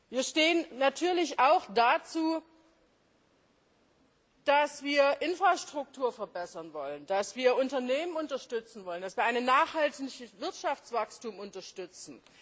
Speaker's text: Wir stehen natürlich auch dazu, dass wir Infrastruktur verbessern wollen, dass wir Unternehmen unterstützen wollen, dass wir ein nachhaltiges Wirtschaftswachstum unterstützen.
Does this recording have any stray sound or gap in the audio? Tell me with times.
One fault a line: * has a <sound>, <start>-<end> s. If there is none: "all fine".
all fine